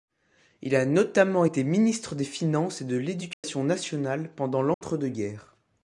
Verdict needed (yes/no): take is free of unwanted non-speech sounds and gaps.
no